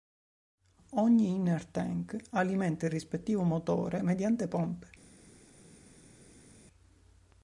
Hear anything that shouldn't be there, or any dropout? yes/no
no